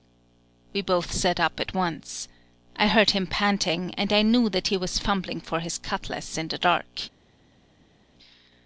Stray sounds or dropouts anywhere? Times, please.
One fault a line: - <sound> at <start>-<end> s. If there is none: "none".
none